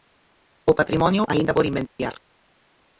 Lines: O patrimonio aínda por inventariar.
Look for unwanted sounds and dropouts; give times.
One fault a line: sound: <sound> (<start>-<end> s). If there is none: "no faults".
sound: dropout (1.9-2.0 s)